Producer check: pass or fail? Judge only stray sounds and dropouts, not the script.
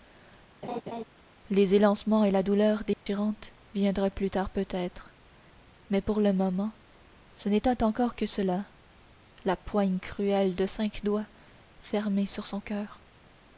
fail